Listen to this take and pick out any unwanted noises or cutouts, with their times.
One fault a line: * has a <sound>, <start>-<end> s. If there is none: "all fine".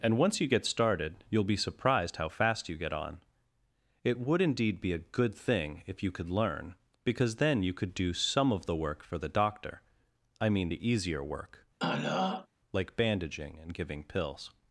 * has a throat clearing, 11.8-12.5 s